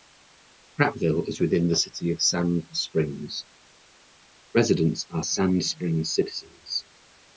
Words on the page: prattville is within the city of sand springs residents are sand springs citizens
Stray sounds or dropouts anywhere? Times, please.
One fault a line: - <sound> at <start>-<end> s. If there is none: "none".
none